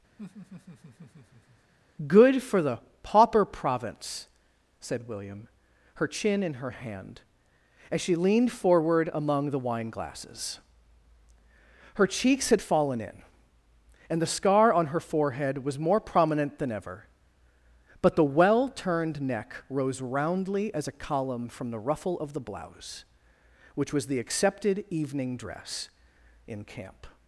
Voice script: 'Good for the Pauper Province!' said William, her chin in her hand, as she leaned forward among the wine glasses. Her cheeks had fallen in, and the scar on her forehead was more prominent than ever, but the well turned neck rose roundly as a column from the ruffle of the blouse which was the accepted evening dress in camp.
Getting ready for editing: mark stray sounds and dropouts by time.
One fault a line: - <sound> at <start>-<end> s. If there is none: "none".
- laugh at 0.2-1.7 s